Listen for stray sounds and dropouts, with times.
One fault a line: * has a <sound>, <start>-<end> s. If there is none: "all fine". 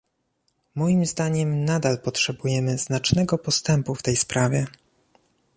all fine